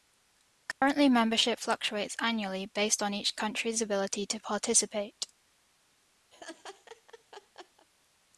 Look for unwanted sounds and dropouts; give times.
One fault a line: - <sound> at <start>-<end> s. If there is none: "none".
- dropout at 0.7-0.8 s
- laugh at 6.3-7.9 s